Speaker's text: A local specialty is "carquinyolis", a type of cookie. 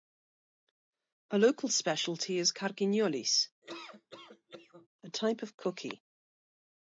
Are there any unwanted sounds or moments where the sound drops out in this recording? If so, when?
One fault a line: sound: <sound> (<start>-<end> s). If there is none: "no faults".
sound: laugh (3.6-4.9 s)